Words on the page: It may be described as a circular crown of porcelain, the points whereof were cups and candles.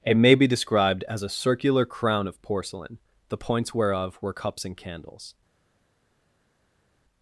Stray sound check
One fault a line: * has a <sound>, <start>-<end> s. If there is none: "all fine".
all fine